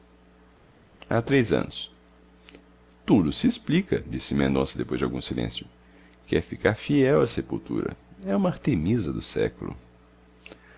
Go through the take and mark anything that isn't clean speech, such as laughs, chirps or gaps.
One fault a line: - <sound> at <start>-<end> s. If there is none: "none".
none